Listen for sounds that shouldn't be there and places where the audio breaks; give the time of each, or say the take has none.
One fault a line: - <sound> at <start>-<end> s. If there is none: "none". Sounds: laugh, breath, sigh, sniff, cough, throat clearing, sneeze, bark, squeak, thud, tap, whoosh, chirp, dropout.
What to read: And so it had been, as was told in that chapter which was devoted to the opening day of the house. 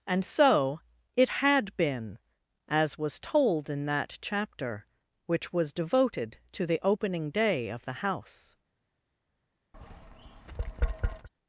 - tap at 9.7-11.3 s